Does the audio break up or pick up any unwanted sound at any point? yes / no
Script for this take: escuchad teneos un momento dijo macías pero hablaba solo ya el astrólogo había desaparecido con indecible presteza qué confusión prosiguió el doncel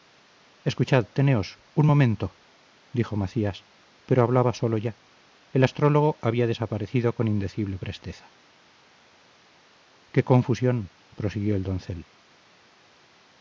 no